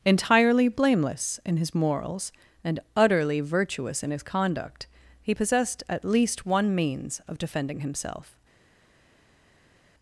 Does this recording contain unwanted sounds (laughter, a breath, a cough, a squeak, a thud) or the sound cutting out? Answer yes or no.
no